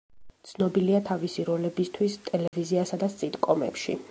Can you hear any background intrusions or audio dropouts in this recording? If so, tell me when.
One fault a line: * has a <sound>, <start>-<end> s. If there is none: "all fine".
* has a dropout, 2.5-2.5 s